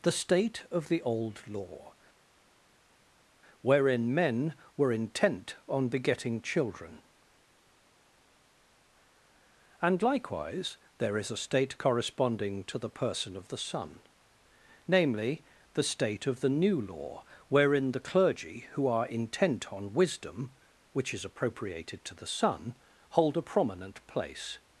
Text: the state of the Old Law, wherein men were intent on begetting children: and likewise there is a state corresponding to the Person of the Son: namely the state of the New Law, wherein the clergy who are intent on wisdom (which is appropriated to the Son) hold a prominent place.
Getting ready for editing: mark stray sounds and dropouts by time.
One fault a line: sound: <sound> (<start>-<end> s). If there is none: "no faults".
no faults